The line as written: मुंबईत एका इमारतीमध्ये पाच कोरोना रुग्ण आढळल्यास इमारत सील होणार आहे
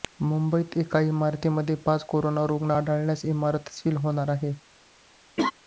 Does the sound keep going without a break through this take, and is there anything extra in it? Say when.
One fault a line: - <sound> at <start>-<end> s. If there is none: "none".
- laugh at 5.4-5.5 s